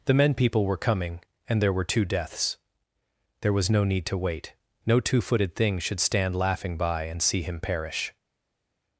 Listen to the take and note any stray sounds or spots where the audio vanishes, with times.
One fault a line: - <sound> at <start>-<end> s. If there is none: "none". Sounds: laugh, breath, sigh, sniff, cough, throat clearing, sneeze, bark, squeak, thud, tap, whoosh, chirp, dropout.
none